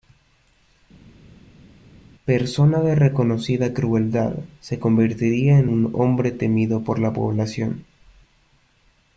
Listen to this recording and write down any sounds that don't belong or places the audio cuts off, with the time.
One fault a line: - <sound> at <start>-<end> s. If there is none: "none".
none